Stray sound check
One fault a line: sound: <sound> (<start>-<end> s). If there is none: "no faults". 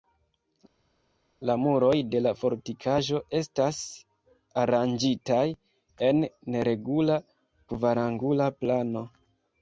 no faults